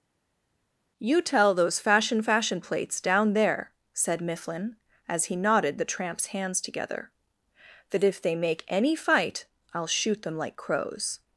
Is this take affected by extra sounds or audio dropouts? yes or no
no